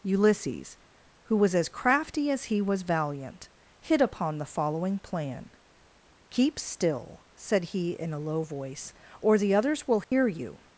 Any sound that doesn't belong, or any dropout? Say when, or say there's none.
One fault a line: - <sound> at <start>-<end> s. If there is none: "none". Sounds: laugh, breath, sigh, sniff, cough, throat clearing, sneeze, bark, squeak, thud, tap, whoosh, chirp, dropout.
- dropout at 10.0-10.1 s